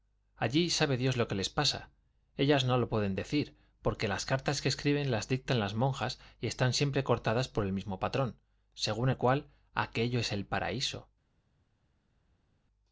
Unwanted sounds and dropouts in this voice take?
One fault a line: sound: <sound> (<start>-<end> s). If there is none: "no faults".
no faults